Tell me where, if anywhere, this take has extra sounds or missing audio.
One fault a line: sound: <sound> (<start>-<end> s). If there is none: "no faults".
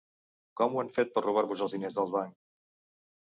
no faults